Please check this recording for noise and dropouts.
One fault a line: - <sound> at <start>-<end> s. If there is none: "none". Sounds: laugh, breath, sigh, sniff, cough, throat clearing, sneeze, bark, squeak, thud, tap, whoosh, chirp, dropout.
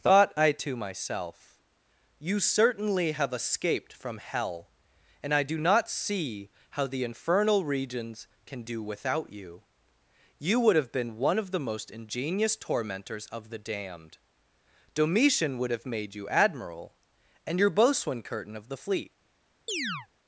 - chirp at 19.7-20.1 s